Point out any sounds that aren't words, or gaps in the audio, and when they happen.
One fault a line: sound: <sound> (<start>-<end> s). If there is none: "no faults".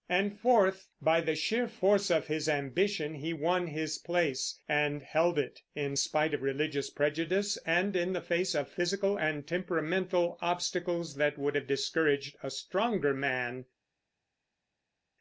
no faults